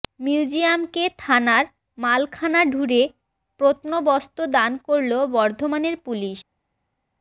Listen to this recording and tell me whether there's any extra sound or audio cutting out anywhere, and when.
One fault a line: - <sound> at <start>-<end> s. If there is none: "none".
none